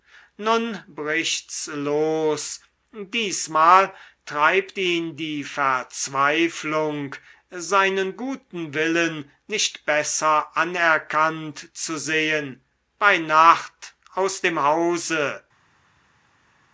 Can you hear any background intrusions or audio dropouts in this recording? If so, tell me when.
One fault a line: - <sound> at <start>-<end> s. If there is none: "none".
none